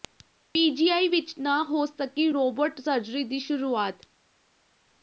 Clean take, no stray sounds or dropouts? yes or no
yes